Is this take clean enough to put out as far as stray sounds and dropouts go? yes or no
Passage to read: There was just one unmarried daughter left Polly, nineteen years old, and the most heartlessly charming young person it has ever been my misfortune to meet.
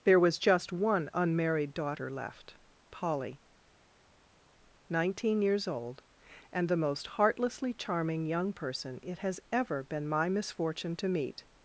yes